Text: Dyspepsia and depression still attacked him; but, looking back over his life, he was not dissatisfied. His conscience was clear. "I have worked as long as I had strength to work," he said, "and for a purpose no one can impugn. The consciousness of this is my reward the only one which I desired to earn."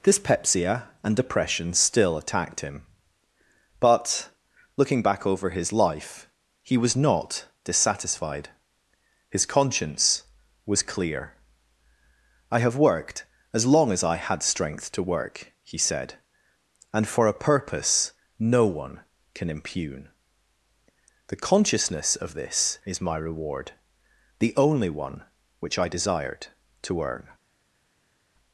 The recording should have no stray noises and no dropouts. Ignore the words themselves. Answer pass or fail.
pass